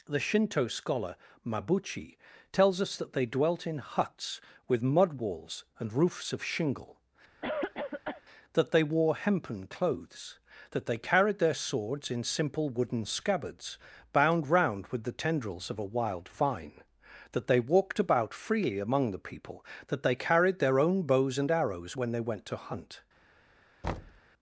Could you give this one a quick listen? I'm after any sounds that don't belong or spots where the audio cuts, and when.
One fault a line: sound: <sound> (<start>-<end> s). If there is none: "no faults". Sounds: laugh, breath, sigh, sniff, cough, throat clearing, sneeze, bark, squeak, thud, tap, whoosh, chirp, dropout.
sound: cough (7.4-8.2 s)
sound: thud (23.8-24.2 s)